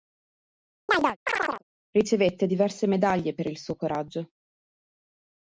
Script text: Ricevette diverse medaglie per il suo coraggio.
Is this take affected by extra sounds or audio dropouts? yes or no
yes